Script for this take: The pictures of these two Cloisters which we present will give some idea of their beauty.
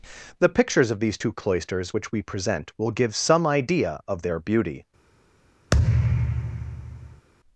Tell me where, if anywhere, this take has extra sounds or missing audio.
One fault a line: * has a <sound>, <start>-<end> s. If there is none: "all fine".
* has a thud, 5.7-7.3 s